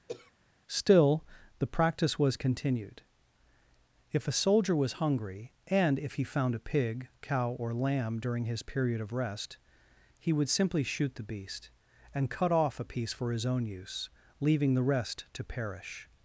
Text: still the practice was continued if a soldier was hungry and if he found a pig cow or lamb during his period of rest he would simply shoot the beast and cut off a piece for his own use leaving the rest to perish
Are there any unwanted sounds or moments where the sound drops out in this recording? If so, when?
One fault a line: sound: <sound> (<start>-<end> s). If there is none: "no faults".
sound: throat clearing (0.1-0.3 s)